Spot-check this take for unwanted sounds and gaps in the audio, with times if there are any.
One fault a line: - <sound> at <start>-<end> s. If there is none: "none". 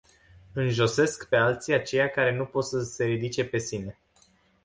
none